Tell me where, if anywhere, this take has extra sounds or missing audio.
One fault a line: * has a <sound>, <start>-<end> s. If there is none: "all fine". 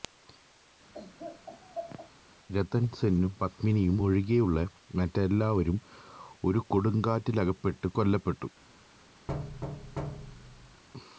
* has a laugh, 0.9-2.1 s
* has a thud, 9.3-10.8 s